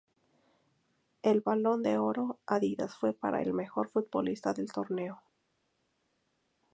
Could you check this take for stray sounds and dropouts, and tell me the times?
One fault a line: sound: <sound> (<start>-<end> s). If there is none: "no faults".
no faults